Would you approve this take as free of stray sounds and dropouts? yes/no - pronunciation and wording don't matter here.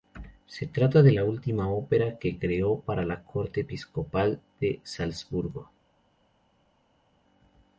yes